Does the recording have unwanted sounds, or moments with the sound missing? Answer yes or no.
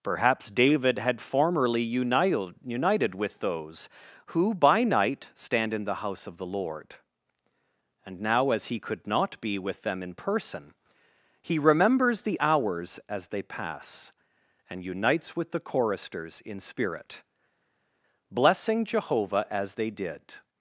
no